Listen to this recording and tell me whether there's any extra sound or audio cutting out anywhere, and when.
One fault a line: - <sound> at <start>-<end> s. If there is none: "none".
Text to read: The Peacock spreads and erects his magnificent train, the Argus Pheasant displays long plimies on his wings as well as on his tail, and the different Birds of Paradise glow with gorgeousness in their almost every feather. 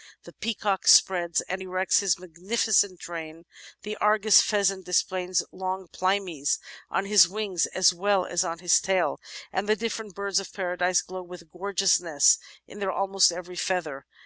none